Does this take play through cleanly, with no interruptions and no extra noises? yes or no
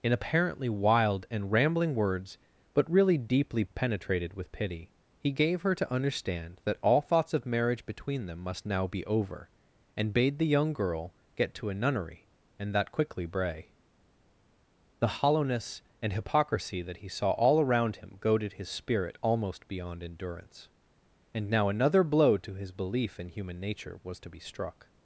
yes